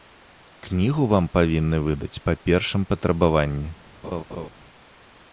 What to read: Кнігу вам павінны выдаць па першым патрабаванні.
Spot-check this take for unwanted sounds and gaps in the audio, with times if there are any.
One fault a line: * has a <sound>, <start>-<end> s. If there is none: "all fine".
* has a laugh, 4.0-4.5 s